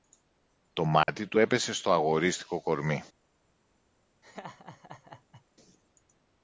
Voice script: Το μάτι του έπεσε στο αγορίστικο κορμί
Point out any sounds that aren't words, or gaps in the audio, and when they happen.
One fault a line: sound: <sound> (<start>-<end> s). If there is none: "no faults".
sound: dropout (1.0-1.1 s)
sound: laugh (4.2-5.5 s)